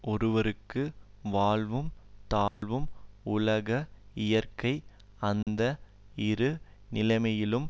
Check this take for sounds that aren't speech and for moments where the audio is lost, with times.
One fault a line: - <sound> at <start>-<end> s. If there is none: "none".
- dropout at 2.5-2.6 s
- dropout at 5.4-5.5 s